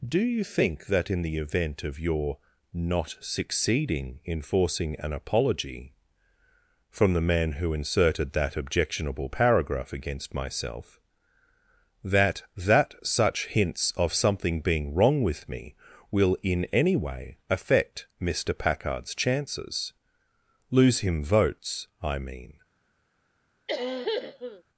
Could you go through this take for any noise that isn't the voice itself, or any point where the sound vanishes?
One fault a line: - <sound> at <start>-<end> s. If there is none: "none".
- cough at 23.7-24.6 s